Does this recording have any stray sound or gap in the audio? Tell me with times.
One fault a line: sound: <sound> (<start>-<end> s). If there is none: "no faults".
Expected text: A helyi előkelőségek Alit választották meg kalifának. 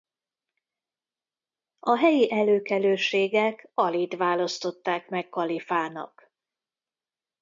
no faults